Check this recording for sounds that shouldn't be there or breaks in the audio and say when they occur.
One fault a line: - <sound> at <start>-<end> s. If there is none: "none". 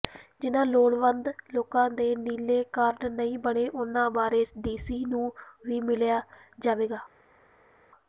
none